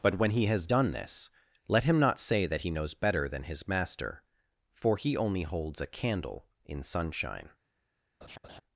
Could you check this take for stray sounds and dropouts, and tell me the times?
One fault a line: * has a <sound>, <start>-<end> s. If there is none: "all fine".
* has a laugh, 8.2-8.6 s